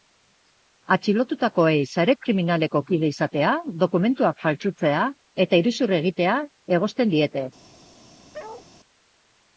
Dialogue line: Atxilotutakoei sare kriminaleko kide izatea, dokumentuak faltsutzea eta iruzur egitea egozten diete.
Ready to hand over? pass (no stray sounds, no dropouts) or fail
fail